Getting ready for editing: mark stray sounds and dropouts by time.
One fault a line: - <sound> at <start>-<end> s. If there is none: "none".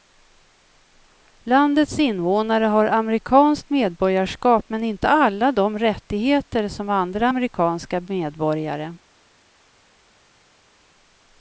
none